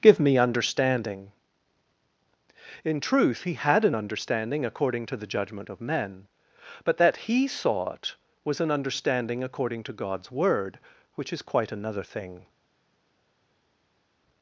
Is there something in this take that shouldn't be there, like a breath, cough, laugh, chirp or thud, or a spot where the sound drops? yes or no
no